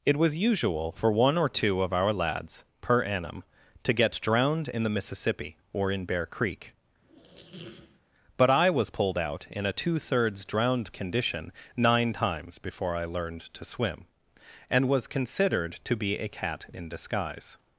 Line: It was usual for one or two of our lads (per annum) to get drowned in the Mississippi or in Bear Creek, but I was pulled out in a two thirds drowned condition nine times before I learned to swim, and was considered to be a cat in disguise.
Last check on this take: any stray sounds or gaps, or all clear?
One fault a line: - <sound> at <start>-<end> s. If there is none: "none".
- squeak at 7.0-8.0 s